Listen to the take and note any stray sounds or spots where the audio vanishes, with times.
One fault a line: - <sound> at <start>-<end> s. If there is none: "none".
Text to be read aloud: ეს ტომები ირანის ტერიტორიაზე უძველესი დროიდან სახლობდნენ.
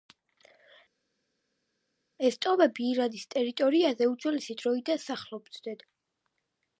none